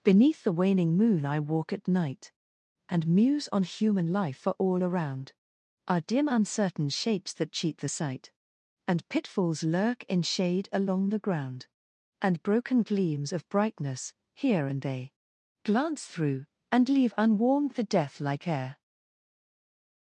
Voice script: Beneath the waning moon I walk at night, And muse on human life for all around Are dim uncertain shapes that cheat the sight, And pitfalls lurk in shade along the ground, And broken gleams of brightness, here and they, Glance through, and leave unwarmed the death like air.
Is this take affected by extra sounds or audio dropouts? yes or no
no